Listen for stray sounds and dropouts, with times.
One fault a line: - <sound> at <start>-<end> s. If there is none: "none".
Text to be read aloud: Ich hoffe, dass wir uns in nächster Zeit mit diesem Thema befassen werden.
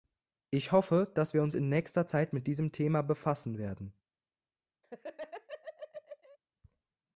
- laugh at 4.8-6.4 s